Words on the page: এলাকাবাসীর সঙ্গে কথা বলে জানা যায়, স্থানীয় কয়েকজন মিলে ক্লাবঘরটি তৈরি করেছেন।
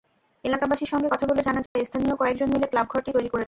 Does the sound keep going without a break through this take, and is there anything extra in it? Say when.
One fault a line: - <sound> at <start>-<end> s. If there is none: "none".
- dropout at 1.7-1.8 s